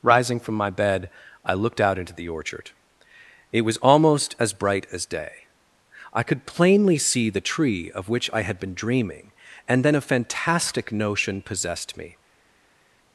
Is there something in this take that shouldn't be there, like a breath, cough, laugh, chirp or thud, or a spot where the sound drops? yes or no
no